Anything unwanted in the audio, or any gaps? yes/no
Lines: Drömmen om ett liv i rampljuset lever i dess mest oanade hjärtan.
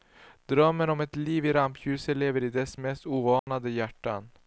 yes